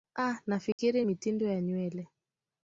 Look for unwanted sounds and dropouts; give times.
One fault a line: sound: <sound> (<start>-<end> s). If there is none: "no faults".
sound: dropout (0.7-0.8 s)